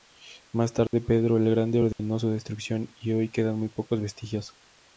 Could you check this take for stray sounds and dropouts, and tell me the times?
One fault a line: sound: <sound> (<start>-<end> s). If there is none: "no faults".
sound: dropout (0.9-0.9 s)
sound: dropout (1.9-2.0 s)